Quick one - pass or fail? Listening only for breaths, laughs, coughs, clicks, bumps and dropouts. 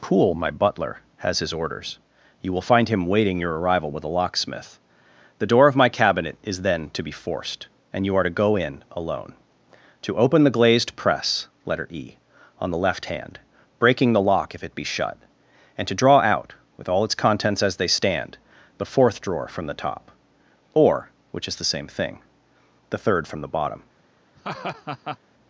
fail